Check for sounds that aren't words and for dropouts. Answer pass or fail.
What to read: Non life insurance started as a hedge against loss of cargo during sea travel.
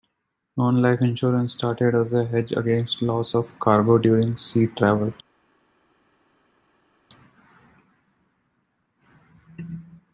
pass